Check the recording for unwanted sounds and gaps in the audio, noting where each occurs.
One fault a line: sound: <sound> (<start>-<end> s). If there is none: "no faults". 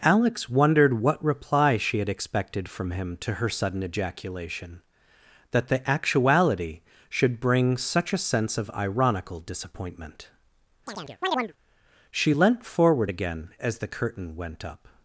sound: chirp (10.9-11.5 s)